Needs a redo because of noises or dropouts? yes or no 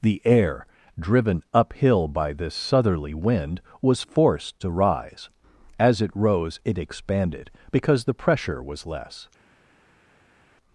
no